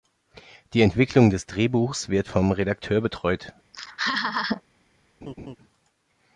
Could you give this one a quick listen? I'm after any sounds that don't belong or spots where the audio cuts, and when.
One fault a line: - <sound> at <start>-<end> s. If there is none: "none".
- laugh at 3.7-4.6 s
- laugh at 5.2-5.6 s